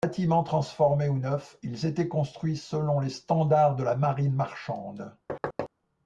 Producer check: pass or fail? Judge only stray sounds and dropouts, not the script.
fail